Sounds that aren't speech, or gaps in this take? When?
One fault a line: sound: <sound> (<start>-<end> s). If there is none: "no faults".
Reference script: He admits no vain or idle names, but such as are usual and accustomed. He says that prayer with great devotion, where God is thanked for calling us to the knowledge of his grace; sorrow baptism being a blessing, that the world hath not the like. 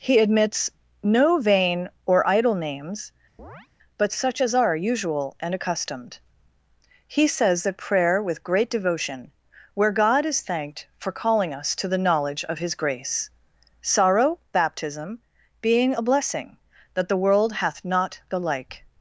sound: chirp (3.4-3.7 s)